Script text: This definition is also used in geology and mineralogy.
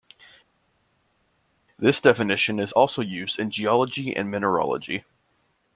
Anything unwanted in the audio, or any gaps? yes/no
no